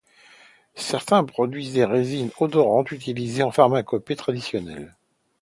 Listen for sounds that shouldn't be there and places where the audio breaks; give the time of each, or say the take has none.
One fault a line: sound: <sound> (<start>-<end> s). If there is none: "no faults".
no faults